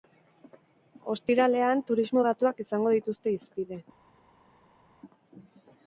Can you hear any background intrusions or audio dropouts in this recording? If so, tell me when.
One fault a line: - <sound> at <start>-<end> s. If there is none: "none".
none